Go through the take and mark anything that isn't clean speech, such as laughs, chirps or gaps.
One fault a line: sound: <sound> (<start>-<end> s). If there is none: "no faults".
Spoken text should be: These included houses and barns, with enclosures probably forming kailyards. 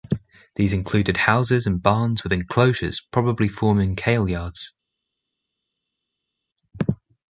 no faults